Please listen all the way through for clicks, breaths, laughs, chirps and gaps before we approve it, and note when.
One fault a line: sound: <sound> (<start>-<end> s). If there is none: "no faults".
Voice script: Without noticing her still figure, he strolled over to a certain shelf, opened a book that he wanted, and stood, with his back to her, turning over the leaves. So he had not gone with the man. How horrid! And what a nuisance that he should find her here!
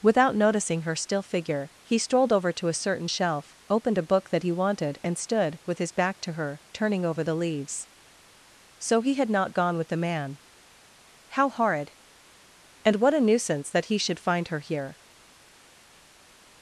no faults